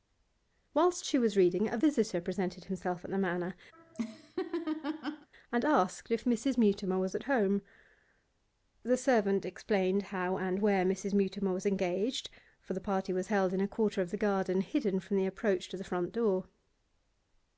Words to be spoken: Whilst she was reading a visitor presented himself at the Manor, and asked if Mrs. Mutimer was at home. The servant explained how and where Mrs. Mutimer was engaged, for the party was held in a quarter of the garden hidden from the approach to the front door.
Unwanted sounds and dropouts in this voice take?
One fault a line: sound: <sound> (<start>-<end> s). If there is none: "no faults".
sound: laugh (3.7-5.3 s)